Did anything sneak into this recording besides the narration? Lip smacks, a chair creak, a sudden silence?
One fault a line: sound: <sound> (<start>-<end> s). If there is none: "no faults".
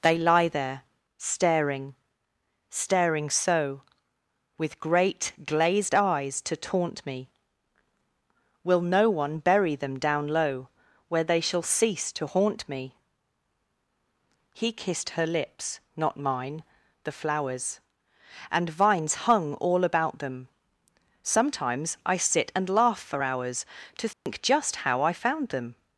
sound: dropout (24.1-24.3 s)